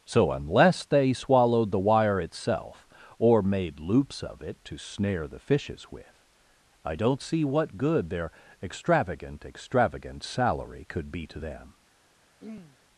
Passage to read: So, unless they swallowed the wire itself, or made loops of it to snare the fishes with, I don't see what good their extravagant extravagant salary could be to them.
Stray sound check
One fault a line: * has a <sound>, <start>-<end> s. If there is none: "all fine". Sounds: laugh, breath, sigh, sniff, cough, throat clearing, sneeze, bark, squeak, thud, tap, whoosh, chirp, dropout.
* has a throat clearing, 12.4-12.8 s